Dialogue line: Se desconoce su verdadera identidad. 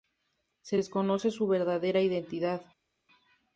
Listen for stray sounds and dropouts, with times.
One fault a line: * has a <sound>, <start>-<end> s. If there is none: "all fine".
all fine